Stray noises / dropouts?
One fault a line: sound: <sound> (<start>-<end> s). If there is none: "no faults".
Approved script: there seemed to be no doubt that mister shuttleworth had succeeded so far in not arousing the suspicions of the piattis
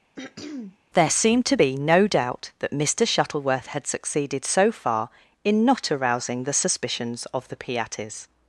sound: throat clearing (0.2-0.8 s)